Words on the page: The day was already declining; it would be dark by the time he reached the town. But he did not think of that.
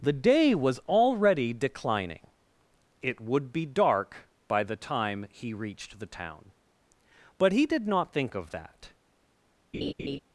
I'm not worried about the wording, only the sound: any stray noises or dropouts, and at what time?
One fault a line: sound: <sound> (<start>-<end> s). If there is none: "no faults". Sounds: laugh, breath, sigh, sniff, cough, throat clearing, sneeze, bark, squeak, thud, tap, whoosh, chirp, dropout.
sound: laugh (9.7-10.2 s)